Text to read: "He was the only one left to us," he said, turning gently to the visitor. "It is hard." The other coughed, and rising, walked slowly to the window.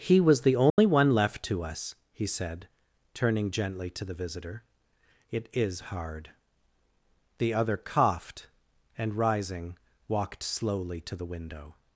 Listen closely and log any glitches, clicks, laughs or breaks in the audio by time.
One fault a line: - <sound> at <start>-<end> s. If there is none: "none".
- dropout at 0.7-0.8 s